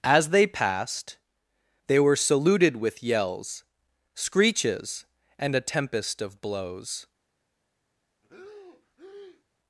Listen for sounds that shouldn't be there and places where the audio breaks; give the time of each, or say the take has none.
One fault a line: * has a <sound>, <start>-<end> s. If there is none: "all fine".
* has a breath, 8.2-9.4 s